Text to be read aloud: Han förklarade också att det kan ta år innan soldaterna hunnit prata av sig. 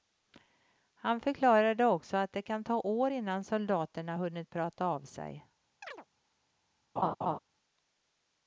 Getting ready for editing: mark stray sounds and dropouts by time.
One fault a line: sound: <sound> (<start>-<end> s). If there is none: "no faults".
sound: chirp (5.8-6.1 s)
sound: laugh (7.0-7.4 s)